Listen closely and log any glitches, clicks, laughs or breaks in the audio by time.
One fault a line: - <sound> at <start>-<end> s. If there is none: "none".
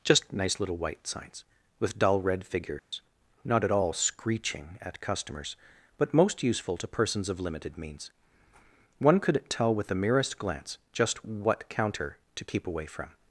- dropout at 2.8-2.9 s